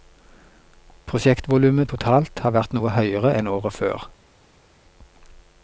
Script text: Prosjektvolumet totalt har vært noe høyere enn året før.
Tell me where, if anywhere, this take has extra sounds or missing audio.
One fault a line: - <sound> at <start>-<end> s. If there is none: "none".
none